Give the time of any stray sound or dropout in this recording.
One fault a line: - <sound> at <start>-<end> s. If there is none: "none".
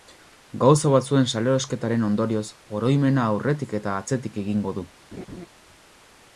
- laugh at 5.1-5.5 s